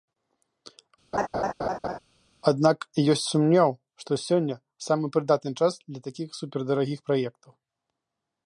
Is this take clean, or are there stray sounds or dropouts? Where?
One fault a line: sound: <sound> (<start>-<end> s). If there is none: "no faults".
sound: laugh (1.1-2.0 s)